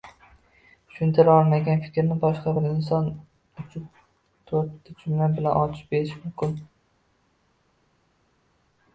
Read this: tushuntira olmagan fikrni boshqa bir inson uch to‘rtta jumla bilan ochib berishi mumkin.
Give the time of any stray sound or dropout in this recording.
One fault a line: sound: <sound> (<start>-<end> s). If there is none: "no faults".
no faults